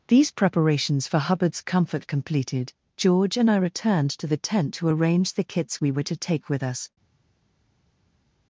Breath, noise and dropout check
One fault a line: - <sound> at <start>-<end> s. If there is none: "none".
none